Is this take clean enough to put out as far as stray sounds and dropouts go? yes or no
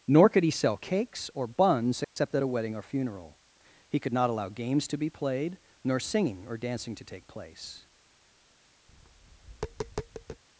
no